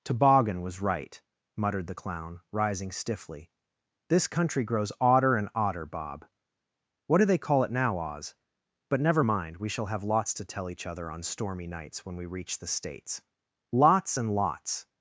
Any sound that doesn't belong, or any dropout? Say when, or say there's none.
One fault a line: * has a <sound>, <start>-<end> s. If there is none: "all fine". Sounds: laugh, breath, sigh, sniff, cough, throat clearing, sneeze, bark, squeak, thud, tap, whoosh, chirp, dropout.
all fine